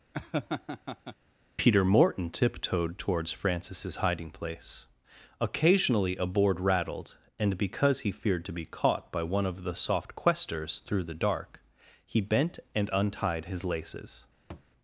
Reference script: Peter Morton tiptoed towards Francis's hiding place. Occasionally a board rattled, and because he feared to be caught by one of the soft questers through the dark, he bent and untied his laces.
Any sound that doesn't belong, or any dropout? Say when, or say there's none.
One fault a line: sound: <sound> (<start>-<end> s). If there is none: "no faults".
sound: laugh (0.1-1.2 s)
sound: thud (14.5-14.7 s)